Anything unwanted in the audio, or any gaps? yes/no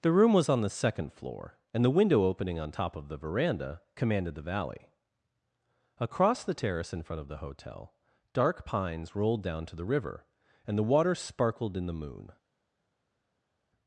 no